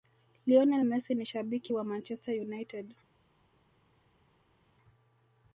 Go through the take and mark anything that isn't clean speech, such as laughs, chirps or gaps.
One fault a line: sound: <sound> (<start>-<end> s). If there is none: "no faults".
no faults